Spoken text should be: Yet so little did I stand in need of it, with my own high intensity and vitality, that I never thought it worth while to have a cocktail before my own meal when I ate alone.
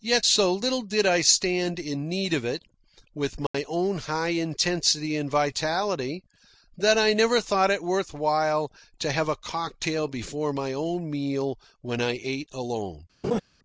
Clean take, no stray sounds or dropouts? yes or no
no